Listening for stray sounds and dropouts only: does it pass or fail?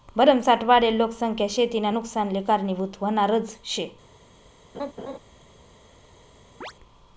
fail